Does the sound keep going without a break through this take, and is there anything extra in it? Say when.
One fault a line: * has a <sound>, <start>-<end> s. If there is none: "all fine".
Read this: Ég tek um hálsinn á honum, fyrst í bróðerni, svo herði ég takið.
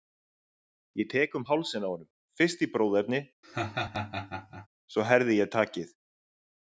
* has a laugh, 3.4-4.7 s